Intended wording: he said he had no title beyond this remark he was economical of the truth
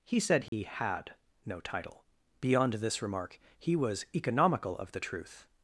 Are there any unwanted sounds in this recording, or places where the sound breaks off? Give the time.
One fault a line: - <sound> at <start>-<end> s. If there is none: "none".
- dropout at 0.5-0.5 s